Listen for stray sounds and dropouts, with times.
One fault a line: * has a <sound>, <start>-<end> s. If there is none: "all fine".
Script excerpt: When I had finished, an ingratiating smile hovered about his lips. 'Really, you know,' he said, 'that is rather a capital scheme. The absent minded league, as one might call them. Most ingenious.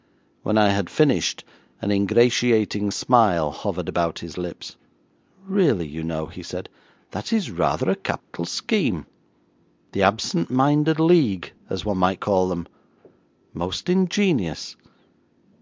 * has a dropout, 8.2-8.3 s